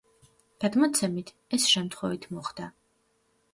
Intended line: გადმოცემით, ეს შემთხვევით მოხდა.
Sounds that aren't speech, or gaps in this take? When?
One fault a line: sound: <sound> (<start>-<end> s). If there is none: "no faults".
no faults